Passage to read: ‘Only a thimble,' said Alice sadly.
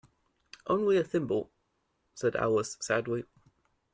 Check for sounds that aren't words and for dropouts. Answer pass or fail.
pass